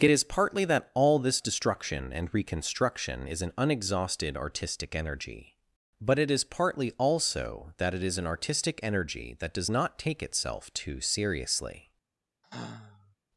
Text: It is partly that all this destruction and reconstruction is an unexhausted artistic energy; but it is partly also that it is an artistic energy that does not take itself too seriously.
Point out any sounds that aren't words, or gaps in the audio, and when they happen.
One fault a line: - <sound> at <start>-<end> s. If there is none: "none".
- sigh at 12.4-13.2 s